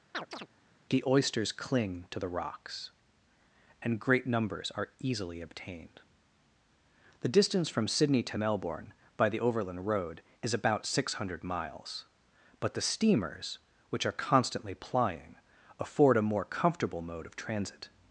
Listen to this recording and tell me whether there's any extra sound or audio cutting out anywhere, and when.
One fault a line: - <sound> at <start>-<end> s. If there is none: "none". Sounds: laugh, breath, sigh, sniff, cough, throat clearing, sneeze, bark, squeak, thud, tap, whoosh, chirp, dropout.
- chirp at 0.1-0.5 s